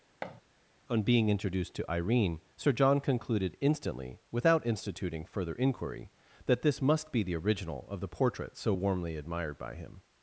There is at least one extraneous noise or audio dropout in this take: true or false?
true